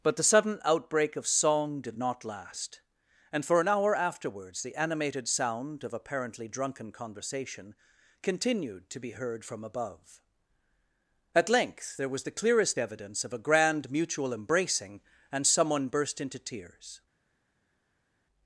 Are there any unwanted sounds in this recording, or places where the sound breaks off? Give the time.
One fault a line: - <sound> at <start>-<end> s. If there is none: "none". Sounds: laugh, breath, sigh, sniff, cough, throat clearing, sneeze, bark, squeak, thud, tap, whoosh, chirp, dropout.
none